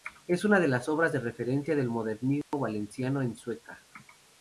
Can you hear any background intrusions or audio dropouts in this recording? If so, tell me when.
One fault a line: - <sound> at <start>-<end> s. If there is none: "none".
- dropout at 2.4-2.5 s